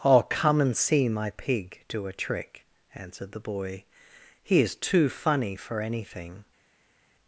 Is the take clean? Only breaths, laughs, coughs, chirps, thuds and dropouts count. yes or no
yes